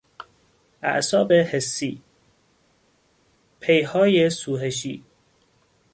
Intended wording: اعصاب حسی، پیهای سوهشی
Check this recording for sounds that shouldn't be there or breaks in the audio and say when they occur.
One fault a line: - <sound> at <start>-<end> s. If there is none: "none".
none